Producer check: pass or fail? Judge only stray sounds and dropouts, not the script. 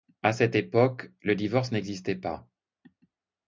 pass